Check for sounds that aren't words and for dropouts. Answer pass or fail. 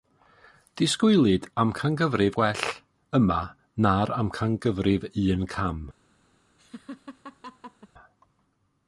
fail